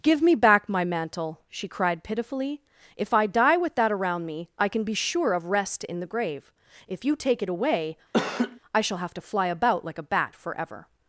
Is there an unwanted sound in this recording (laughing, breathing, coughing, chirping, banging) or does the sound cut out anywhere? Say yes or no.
yes